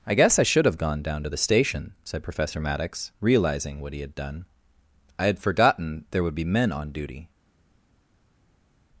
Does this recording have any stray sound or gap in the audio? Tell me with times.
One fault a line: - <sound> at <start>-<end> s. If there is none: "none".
none